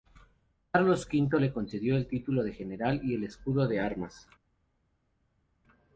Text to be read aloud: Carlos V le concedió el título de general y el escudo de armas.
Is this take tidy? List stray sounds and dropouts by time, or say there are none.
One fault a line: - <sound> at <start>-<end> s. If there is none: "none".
none